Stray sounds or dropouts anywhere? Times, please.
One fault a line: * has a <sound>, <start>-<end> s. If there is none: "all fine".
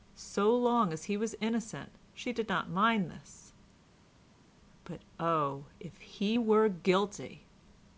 all fine